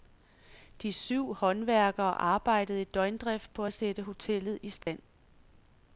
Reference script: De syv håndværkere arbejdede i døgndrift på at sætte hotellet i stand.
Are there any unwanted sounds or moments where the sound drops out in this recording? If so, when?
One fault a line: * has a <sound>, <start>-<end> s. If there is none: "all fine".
* has a dropout, 4.8-4.9 s